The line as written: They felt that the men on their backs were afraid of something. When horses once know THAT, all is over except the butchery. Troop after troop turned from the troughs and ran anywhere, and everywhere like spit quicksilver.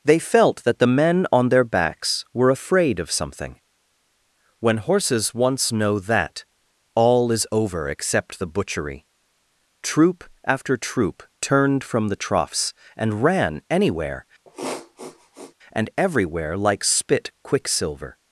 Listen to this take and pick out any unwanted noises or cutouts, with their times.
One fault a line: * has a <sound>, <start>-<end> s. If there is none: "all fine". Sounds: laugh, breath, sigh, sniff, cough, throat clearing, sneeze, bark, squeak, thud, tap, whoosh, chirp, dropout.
* has a sniff, 14.4-15.5 s